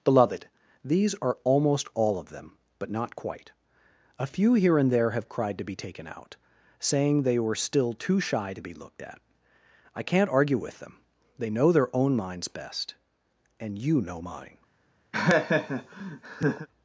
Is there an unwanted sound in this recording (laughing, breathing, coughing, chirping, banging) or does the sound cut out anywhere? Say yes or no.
yes